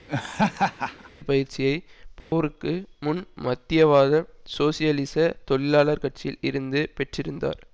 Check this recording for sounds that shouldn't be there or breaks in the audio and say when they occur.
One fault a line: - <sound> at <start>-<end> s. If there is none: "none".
- laugh at 0.1-1.1 s
- dropout at 2.2-2.3 s